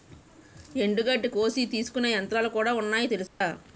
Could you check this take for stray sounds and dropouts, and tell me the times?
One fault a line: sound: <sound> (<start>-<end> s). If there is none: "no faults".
sound: dropout (3.3-3.4 s)